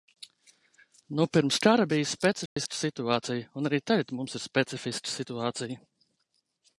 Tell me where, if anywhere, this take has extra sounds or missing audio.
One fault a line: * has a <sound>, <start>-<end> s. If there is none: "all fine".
* has a dropout, 2.5-2.6 s